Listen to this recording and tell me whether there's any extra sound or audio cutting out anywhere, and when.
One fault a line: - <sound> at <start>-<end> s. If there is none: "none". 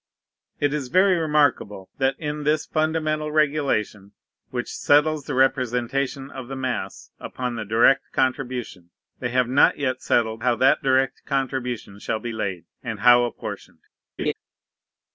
- laugh at 14.2-14.3 s